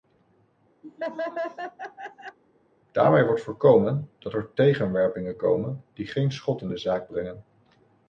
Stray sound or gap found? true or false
true